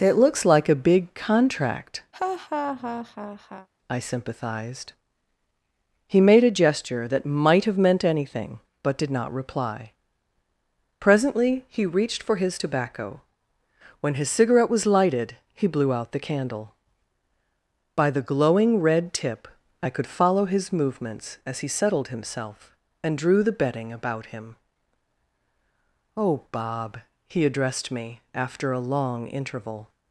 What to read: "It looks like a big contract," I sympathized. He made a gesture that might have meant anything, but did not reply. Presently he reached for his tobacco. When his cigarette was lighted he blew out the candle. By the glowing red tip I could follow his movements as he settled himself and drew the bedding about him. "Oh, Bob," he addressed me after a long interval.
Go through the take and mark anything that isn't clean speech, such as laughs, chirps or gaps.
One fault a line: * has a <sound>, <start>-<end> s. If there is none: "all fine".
* has a laugh, 2.1-3.7 s